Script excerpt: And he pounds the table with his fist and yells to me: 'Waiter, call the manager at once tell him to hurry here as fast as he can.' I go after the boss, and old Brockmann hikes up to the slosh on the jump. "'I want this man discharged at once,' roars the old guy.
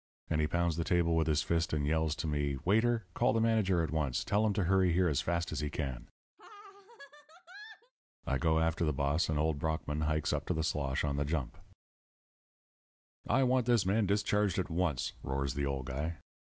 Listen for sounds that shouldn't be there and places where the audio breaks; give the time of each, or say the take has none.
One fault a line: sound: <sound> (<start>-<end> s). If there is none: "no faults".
sound: laugh (6.4-7.9 s)